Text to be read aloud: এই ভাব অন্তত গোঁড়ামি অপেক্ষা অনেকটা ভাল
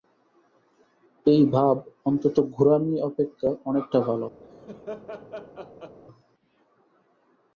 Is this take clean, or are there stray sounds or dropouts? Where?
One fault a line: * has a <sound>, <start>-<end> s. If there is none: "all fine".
* has a laugh, 4.4-6.0 s